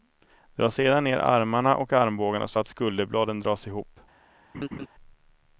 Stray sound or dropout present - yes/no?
yes